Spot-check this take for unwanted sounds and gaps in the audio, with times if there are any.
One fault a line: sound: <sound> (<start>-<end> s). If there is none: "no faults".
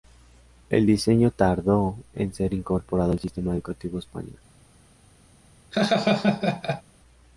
sound: laugh (5.7-6.8 s)